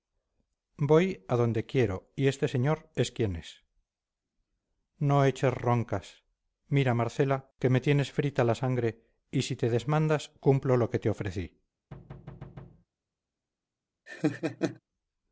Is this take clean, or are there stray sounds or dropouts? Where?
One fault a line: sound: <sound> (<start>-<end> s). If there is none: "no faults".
sound: thud (11.9-12.9 s)
sound: laugh (14.1-14.8 s)